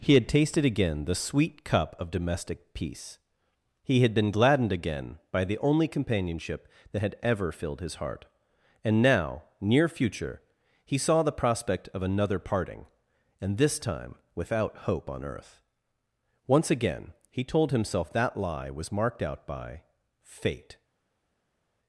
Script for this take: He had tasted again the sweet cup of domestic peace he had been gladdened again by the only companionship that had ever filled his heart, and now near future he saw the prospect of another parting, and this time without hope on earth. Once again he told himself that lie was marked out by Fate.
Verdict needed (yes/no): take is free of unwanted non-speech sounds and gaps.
yes